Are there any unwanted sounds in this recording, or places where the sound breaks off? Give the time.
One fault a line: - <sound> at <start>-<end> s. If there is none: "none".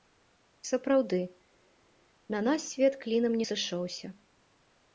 none